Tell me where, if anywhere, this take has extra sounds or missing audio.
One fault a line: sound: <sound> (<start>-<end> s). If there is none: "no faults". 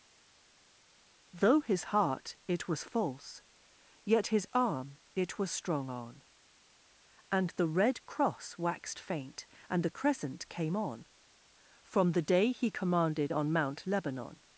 no faults